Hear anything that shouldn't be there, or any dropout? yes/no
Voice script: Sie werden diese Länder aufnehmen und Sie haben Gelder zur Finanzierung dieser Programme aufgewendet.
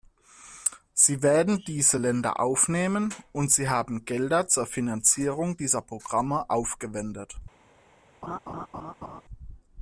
yes